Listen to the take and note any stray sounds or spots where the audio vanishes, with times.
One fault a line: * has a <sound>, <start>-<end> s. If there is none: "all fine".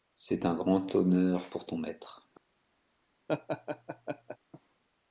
* has a laugh, 3.3-4.4 s